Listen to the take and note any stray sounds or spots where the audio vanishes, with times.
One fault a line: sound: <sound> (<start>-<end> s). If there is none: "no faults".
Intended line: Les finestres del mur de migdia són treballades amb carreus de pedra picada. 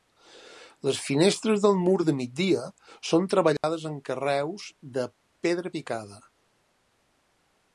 sound: dropout (3.6-3.6 s)